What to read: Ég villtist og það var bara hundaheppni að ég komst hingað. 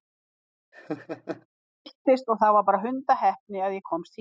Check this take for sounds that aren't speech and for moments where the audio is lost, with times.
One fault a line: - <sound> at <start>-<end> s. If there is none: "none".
- laugh at 0.7-1.5 s